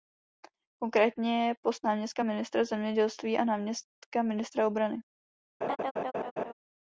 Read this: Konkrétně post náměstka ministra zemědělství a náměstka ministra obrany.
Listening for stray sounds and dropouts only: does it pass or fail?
fail